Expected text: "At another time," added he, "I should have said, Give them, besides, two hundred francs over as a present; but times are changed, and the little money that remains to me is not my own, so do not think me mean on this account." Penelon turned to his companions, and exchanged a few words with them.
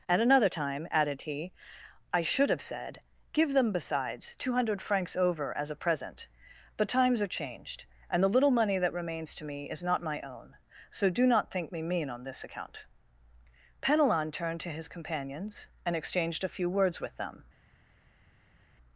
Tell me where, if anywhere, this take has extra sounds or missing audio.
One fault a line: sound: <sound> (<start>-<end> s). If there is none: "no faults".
no faults